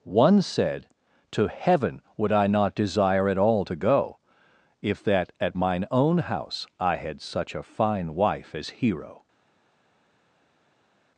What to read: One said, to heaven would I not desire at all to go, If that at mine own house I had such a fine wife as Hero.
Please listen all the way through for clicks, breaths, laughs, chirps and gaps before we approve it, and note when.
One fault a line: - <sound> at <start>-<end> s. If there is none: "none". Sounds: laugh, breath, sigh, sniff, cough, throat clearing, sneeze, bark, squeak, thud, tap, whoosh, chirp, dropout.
none